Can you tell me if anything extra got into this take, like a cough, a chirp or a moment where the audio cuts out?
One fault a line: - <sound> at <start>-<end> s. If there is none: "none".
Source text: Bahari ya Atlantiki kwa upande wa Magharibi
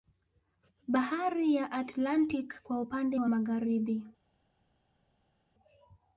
none